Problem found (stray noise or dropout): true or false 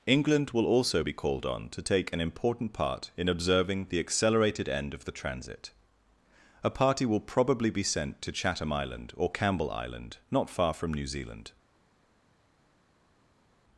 false